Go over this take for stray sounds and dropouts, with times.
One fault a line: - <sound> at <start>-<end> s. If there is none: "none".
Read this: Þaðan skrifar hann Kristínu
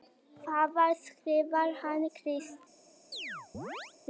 - chirp at 3.1-3.9 s